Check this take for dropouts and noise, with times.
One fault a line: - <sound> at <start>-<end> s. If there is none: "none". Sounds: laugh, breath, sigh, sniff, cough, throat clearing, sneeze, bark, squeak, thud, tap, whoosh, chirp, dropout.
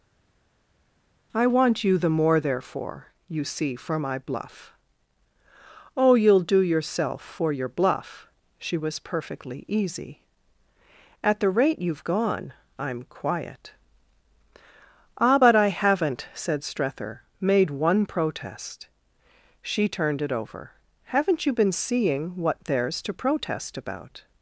none